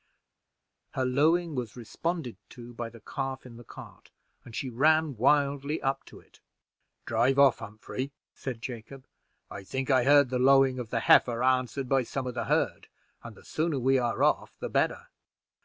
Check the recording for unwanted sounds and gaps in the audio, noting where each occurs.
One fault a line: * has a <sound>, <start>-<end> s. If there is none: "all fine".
all fine